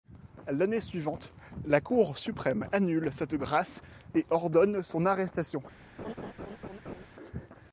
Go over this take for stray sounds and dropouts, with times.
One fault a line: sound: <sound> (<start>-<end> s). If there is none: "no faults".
sound: laugh (6.0-7.1 s)